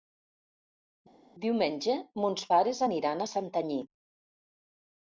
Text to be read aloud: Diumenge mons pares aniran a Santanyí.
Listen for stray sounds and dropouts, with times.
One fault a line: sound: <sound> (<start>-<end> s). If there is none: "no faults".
no faults